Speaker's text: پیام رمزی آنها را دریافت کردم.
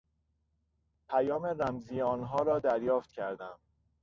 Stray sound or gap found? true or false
false